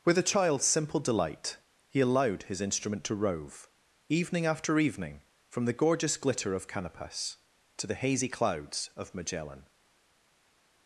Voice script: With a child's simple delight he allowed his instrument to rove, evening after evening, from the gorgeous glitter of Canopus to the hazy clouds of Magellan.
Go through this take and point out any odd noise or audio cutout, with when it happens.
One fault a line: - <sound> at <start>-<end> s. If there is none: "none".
none